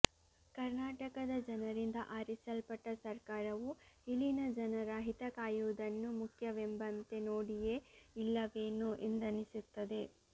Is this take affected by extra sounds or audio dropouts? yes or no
no